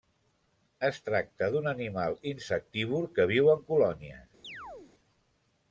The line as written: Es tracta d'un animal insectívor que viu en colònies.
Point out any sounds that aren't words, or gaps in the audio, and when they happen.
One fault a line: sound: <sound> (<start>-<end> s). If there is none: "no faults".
sound: chirp (4.4-4.9 s)